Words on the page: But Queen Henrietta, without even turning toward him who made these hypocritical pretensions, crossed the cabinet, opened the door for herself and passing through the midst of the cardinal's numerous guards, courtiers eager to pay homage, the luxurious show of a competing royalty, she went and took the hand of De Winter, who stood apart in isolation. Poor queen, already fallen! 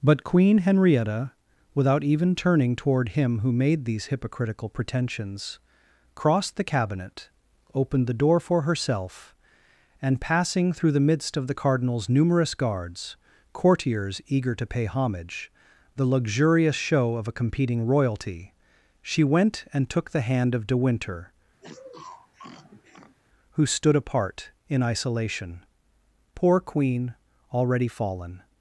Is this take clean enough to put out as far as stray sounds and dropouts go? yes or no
no